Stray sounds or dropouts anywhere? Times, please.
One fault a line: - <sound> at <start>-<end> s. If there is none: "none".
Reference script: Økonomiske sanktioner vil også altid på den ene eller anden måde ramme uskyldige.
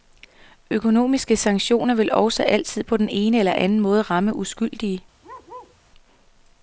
- bark at 5.2-5.8 s